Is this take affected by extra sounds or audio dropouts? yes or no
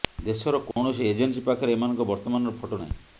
yes